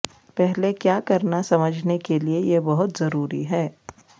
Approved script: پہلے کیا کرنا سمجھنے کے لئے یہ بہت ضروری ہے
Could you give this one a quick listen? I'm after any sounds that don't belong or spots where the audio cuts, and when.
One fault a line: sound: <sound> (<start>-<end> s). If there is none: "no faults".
no faults